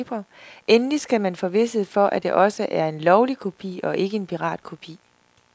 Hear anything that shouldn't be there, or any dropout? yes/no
no